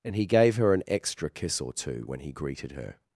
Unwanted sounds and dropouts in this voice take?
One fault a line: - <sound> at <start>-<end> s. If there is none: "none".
none